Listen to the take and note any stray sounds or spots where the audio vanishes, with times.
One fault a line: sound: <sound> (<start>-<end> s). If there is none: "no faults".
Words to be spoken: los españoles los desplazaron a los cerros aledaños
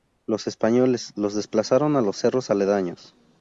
no faults